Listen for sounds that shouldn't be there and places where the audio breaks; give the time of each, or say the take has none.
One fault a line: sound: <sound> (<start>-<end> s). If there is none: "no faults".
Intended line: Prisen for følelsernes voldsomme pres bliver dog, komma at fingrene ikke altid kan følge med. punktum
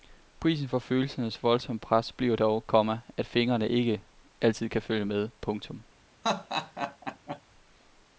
sound: laugh (6.2-7.4 s)